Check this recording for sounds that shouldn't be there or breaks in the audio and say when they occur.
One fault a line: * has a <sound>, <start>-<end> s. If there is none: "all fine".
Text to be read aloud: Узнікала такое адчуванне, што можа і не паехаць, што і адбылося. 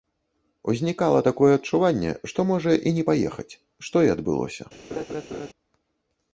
* has a laugh, 4.9-5.5 s